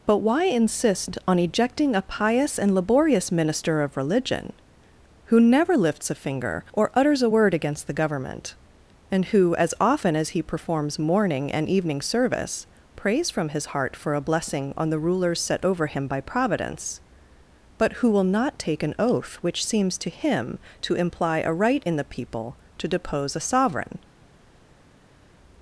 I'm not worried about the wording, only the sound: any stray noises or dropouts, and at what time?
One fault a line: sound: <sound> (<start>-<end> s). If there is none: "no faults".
no faults